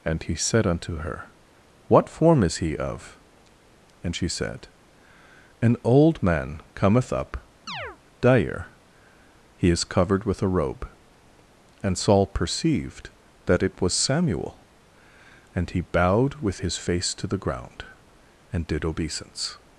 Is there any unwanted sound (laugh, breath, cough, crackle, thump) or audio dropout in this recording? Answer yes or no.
yes